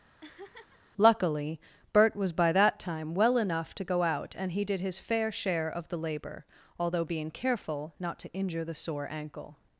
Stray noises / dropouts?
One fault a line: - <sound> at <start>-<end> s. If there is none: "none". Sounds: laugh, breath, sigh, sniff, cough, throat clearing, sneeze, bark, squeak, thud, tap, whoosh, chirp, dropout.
- laugh at 0.2-0.8 s